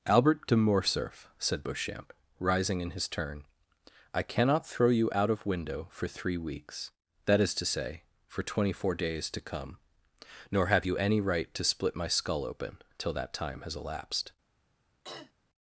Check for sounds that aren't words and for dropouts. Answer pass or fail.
fail